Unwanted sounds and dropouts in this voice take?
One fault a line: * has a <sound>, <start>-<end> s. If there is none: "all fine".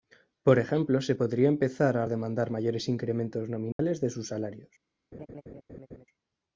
* has a dropout, 3.7-3.8 s
* has a laugh, 5.1-6.1 s